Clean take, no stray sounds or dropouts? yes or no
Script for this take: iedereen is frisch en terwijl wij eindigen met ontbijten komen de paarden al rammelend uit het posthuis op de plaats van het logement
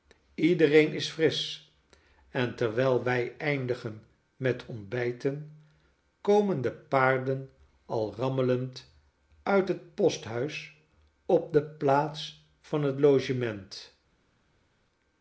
yes